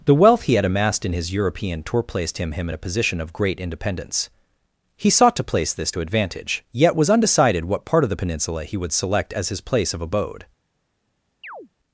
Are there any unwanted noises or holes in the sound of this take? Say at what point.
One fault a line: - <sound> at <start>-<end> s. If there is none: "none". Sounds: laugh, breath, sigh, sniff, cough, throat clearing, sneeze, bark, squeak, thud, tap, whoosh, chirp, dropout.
- chirp at 11.4-11.7 s